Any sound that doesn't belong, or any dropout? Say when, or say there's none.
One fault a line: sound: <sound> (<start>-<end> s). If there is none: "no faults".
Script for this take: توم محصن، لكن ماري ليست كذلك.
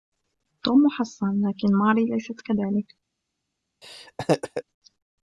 sound: laugh (3.8-4.6 s)